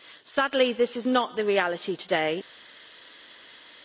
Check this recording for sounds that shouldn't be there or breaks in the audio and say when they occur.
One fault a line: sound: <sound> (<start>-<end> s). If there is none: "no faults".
no faults